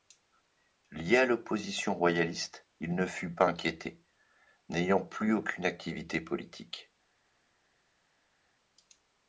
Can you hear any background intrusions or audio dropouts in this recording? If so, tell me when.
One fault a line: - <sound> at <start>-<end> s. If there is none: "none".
none